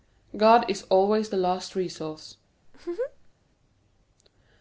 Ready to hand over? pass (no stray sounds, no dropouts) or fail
fail